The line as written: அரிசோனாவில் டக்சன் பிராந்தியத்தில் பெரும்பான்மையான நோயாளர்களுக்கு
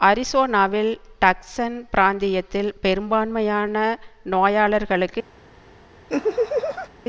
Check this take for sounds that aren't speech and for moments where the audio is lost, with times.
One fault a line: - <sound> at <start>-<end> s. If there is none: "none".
- laugh at 6.1-6.9 s